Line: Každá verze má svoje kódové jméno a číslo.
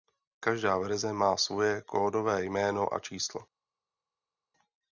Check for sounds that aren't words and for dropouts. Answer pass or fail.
pass